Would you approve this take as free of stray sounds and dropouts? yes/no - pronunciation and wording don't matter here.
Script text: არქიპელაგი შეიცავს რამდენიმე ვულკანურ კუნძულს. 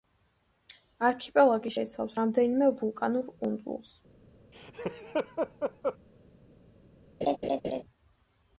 no